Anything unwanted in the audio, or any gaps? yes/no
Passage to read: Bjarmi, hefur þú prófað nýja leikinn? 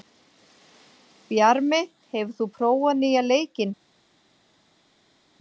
no